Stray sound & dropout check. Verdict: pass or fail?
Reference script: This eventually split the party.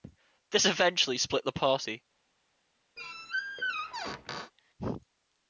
fail